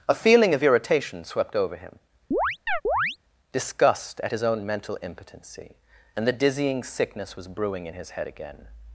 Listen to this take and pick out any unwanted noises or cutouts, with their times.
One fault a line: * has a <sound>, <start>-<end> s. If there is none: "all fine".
* has a chirp, 2.3-3.2 s